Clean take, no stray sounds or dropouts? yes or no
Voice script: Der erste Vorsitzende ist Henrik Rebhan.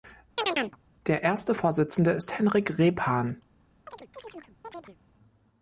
no